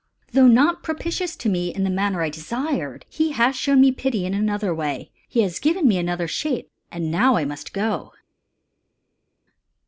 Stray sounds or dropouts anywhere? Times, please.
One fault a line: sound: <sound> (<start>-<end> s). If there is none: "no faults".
no faults